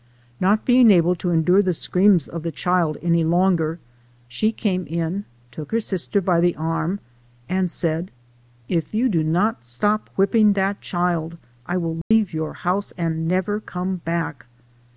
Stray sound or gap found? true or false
true